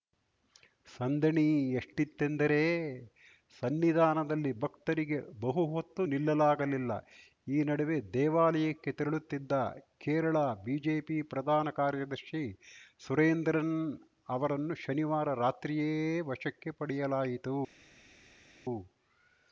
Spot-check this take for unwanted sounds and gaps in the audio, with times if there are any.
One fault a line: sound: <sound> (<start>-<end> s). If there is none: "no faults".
no faults